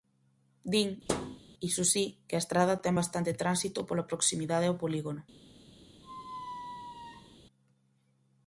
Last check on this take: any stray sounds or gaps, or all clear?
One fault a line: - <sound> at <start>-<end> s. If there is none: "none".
- thud at 1.1-1.4 s
- squeak at 6.0-7.4 s